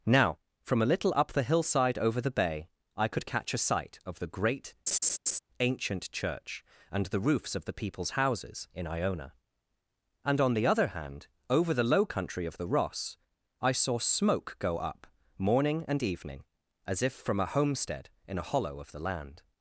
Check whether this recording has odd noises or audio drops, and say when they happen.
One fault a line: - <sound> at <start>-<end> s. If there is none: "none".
- laugh at 4.9-5.4 s